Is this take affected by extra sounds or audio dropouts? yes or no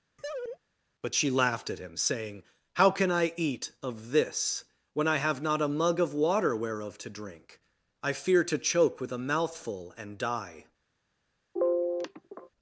yes